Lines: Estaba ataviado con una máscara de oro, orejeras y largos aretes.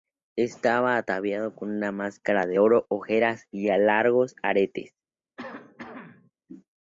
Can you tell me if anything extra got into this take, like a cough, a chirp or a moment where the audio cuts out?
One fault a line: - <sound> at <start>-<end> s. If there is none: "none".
- cough at 5.4-6.3 s